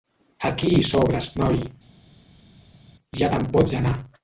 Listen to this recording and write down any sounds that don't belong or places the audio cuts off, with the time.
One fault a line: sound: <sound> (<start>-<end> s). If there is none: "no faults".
no faults